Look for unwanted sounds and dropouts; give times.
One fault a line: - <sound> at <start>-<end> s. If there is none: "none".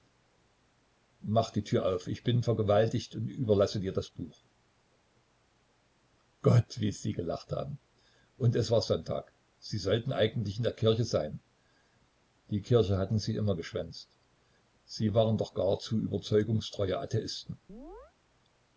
- chirp at 17.7-18.1 s